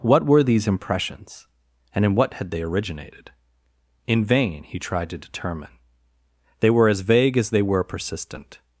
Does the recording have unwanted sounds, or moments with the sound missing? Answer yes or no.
no